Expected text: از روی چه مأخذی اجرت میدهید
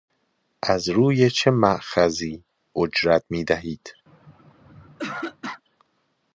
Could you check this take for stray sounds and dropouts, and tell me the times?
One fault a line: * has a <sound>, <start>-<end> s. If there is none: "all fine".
* has a throat clearing, 4.1-5.6 s